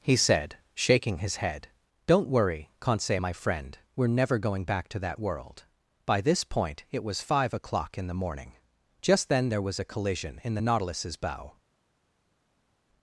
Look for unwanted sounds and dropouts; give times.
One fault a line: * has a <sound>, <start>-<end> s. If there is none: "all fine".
all fine